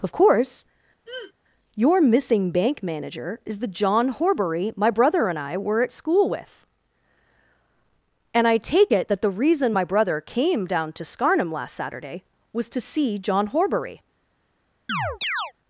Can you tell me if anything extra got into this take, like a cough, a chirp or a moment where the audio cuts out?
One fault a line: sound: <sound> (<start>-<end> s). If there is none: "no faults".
sound: throat clearing (1.1-1.3 s)
sound: chirp (14.9-15.5 s)